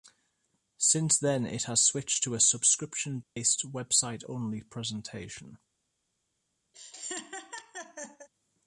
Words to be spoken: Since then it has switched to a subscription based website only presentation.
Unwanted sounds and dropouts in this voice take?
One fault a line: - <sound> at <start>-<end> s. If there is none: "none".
- dropout at 3.2-3.4 s
- laugh at 6.7-8.3 s